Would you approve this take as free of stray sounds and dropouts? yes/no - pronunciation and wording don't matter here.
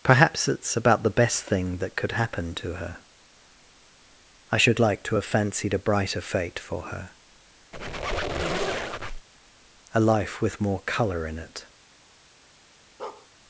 no